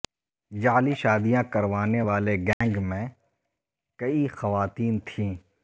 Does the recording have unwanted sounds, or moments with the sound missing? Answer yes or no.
yes